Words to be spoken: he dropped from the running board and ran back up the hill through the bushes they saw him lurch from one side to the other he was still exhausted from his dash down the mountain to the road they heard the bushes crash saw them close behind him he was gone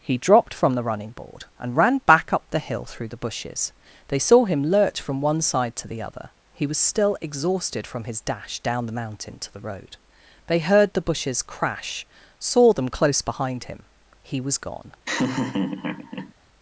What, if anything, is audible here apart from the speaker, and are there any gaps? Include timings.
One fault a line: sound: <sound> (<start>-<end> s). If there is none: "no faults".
sound: laugh (15.1-16.3 s)